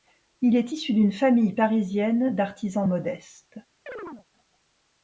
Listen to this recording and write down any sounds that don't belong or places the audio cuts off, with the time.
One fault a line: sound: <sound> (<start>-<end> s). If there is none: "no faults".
sound: chirp (3.9-4.3 s)